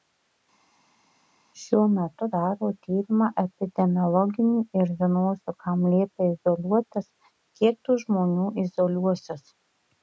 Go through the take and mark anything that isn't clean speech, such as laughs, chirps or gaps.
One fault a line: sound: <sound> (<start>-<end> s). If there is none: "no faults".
no faults